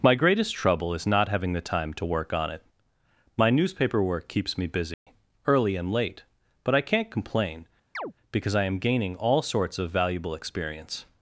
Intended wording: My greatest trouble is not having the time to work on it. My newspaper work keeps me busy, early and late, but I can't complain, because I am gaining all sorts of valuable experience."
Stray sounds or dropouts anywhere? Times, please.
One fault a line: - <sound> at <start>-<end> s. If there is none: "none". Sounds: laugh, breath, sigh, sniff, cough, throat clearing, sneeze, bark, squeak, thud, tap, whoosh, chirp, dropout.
- dropout at 4.9-5.1 s
- chirp at 7.9-8.1 s